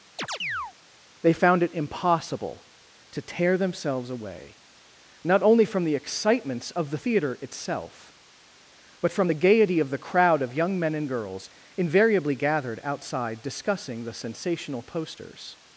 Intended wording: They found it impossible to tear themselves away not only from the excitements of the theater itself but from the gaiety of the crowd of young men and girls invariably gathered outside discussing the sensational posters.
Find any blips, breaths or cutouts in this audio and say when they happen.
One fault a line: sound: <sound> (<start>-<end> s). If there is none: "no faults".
sound: chirp (0.2-0.7 s)